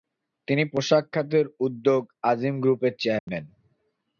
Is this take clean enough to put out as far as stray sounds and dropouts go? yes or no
no